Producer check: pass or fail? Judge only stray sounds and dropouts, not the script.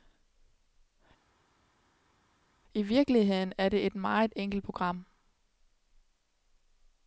pass